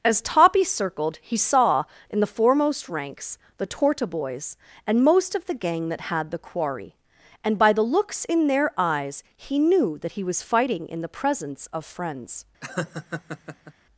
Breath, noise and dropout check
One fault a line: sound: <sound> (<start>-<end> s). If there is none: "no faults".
sound: laugh (12.6-13.7 s)